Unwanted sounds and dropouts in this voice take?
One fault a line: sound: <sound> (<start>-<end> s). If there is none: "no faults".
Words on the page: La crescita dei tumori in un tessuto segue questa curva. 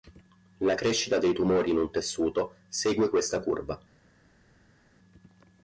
no faults